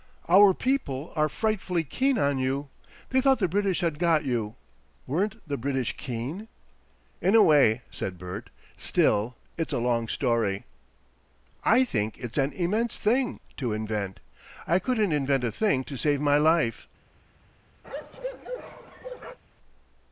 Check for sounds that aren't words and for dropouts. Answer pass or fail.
fail